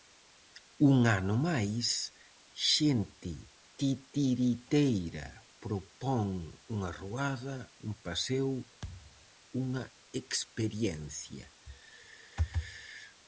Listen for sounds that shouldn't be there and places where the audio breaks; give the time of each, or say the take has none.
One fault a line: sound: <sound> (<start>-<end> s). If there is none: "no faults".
sound: thud (8.8-9.3 s)